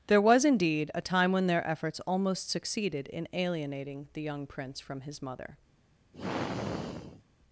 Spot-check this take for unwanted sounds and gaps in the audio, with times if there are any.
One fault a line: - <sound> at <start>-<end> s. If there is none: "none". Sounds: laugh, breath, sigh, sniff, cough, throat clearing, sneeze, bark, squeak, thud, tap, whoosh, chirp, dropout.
- sigh at 6.1-7.2 s